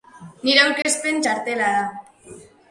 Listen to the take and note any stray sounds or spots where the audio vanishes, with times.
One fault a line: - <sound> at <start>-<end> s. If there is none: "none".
- dropout at 0.8-0.8 s